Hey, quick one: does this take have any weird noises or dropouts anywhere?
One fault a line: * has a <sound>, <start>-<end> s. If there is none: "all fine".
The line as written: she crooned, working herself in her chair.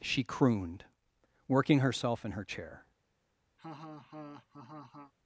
* has a laugh, 3.6-5.1 s